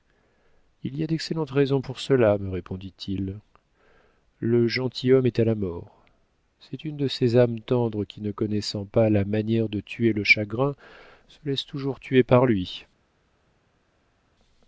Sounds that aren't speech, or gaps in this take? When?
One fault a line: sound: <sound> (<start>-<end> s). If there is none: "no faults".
no faults